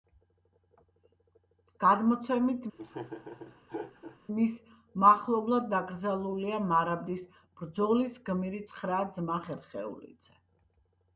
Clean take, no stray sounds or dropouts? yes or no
no